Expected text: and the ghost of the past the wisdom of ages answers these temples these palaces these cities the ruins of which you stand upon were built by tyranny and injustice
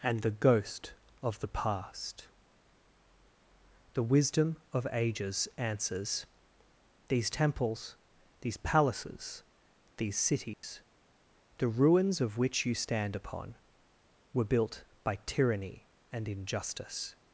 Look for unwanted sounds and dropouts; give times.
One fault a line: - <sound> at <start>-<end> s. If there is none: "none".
- dropout at 10.5-10.6 s